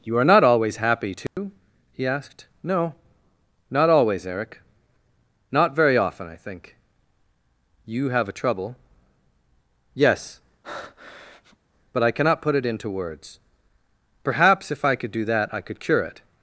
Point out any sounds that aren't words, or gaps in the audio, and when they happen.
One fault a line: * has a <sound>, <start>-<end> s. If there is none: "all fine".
* has a dropout, 1.3-1.4 s
* has a breath, 10.6-11.6 s